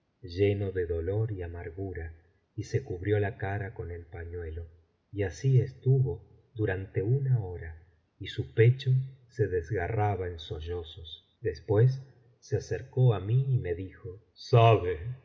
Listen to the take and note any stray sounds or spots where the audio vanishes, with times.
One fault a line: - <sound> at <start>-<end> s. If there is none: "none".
none